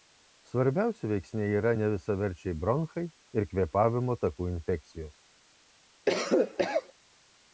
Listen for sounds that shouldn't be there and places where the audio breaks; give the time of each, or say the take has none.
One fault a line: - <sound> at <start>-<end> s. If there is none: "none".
- cough at 6.1-6.9 s